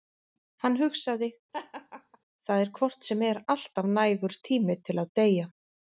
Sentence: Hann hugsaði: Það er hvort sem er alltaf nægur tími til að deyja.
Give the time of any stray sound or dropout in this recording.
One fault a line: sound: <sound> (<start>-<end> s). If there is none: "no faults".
sound: laugh (1.5-2.2 s)